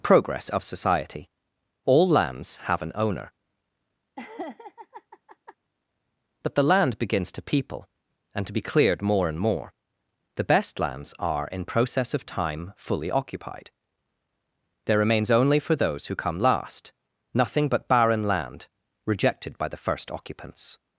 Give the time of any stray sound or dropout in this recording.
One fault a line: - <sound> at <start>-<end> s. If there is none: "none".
- laugh at 4.2-5.6 s